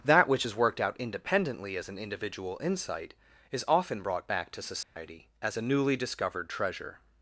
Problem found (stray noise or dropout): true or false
true